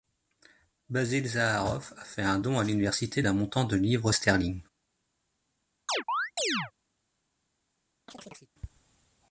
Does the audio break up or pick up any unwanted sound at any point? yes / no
yes